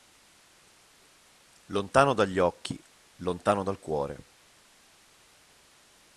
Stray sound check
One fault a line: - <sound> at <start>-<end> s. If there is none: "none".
none